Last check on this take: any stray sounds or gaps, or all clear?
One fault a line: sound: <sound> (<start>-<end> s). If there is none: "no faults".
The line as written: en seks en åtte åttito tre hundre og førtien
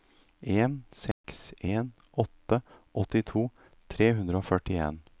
sound: dropout (1.1-1.2 s)